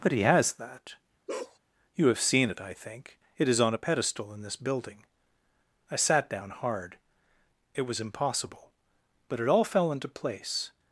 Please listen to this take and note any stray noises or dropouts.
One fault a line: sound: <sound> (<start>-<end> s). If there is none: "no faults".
sound: bark (1.3-1.6 s)